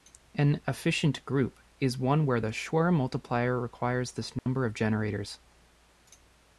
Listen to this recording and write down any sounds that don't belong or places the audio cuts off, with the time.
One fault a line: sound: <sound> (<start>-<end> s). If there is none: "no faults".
sound: dropout (4.4-4.5 s)